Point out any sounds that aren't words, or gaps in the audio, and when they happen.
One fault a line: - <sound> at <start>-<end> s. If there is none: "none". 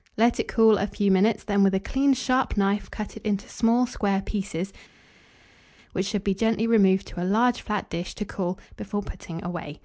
none